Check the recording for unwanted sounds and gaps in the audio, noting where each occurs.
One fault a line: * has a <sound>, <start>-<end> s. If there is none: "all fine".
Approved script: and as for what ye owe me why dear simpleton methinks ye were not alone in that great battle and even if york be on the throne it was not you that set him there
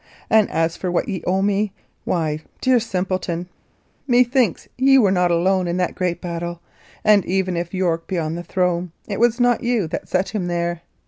all fine